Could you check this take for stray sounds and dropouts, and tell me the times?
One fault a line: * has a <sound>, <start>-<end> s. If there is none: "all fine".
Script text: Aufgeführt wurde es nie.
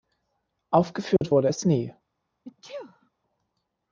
* has a dropout, 1.2-1.2 s
* has a sneeze, 2.4-3.1 s